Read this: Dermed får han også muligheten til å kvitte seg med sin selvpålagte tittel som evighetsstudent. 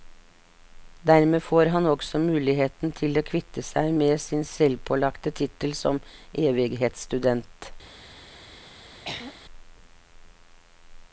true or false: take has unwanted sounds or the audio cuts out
true